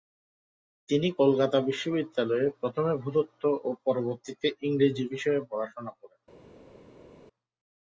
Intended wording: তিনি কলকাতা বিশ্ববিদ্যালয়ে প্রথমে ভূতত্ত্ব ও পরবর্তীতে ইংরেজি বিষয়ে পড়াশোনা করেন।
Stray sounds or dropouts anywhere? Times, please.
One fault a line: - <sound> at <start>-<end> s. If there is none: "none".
none